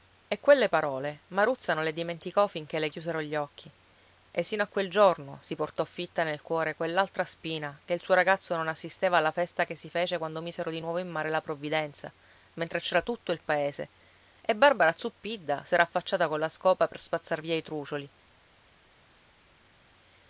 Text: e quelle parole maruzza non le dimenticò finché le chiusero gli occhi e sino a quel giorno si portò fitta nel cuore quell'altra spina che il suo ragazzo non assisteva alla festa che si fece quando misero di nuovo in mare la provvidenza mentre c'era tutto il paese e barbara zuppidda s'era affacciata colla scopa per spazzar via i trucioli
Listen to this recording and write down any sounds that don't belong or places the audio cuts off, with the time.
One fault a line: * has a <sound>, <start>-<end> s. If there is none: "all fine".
all fine